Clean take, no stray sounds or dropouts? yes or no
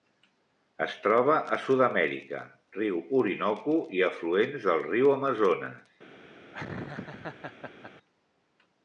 no